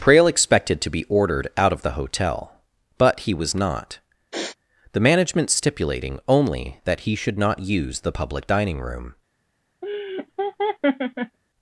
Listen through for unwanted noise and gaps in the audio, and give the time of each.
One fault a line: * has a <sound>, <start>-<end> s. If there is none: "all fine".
* has a sniff, 4.3-4.6 s
* has a laugh, 9.8-11.4 s